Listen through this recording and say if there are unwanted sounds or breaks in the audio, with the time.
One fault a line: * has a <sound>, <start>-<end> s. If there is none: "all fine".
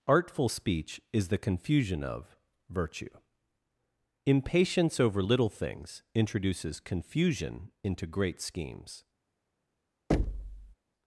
* has a thud, 10.1-10.8 s